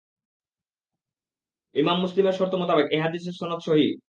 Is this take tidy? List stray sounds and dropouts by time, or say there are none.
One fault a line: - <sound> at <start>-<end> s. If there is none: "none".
none